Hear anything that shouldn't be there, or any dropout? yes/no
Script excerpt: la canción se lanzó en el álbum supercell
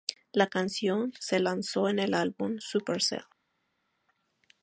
no